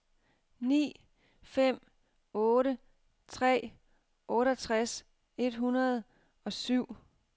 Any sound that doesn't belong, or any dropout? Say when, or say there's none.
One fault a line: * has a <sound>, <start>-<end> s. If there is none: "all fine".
all fine